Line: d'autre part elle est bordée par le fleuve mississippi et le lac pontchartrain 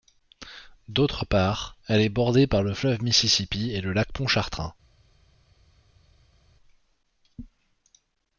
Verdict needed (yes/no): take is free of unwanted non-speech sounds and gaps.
yes